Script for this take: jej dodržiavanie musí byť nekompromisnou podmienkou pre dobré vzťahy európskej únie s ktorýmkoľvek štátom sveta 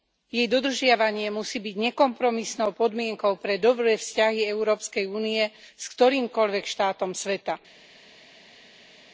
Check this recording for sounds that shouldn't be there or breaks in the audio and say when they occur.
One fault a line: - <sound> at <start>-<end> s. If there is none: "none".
none